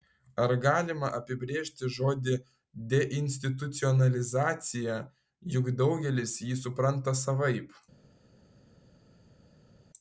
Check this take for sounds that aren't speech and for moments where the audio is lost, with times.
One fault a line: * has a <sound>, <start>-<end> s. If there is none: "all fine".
all fine